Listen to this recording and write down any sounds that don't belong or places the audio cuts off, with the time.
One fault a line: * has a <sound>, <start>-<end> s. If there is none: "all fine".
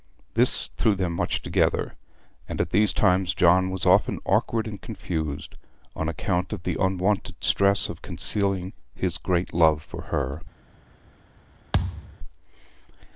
* has a thud, 11.7-12.2 s